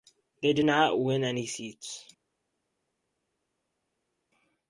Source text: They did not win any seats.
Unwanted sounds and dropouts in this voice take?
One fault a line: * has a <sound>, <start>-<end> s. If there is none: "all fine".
all fine